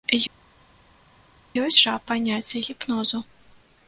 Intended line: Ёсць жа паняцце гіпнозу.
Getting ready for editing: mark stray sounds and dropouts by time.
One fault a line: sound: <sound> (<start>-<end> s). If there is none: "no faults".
no faults